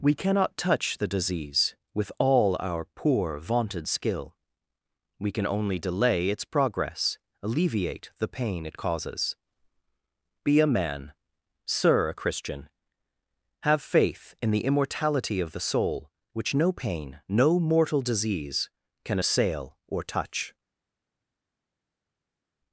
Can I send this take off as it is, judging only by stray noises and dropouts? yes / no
yes